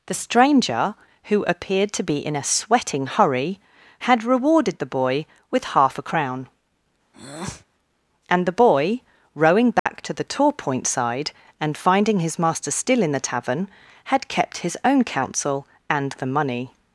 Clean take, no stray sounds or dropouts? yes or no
no